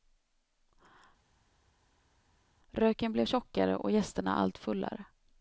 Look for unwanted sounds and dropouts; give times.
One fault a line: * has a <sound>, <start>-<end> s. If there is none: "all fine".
all fine